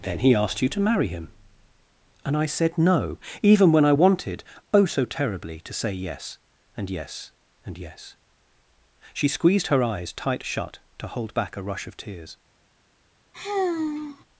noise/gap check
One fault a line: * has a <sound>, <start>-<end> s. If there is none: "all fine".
* has a sigh, 13.3-14.2 s